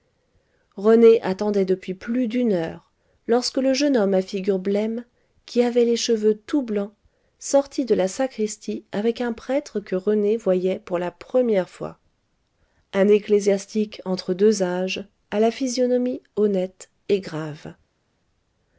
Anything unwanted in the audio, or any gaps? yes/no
no